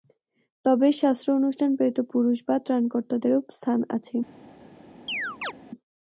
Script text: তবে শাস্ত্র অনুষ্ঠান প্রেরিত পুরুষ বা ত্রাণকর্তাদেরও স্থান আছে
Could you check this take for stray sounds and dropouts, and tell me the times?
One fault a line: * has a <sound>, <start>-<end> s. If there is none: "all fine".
* has a chirp, 5.1-5.5 s